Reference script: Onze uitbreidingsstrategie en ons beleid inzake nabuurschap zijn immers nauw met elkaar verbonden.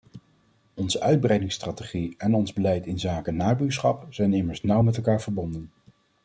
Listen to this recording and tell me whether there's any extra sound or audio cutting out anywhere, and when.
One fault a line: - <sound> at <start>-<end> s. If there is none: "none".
none